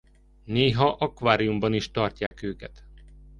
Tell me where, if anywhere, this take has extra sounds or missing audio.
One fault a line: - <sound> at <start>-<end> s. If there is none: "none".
- dropout at 2.3-2.3 s